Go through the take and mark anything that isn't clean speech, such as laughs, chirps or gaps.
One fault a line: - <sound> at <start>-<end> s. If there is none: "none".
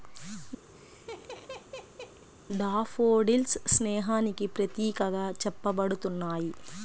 - laugh at 0.7-2.3 s